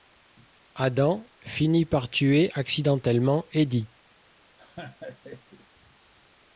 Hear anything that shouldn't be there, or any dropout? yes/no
yes